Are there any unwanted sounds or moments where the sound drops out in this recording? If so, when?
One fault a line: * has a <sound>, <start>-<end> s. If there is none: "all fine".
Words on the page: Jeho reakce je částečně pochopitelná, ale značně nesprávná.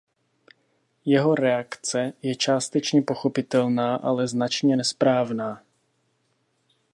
all fine